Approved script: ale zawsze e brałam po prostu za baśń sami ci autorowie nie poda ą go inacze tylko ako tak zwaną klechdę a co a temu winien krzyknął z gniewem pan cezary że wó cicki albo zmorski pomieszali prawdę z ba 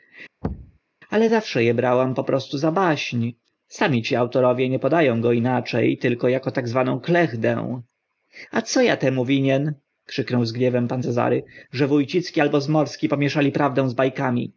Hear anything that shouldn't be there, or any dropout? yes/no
yes